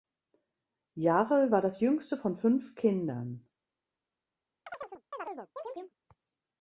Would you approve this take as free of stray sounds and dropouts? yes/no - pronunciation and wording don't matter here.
no